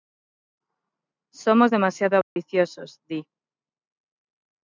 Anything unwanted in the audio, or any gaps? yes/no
yes